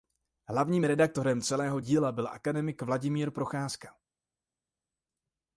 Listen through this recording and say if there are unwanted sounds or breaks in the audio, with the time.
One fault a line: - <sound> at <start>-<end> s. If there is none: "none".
none